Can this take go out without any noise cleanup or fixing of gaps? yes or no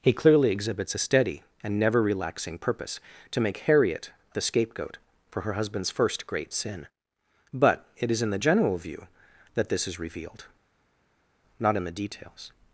yes